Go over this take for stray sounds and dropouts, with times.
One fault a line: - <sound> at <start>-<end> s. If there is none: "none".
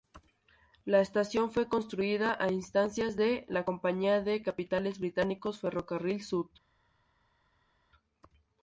none